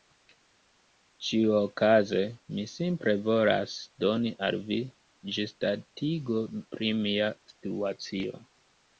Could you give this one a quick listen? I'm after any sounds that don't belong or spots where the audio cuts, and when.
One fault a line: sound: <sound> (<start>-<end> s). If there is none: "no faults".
no faults